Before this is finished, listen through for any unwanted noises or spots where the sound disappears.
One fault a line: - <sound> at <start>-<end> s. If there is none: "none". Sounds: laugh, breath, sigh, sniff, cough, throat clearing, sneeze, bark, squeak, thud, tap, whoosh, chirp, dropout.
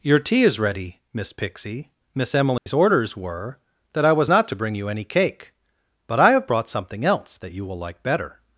- dropout at 2.6-2.7 s